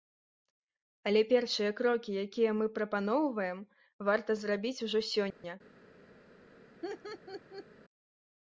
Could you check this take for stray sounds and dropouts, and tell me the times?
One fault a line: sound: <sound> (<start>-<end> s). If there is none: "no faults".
sound: dropout (5.3-5.4 s)
sound: laugh (6.8-7.7 s)